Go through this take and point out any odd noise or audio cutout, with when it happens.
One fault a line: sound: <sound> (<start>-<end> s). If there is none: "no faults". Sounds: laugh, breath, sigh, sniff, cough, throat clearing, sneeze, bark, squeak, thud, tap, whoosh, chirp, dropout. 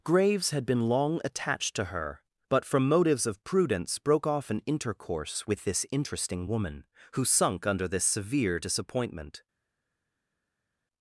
no faults